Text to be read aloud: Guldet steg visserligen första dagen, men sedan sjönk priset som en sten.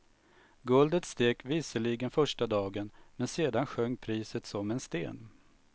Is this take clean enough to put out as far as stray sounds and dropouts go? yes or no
yes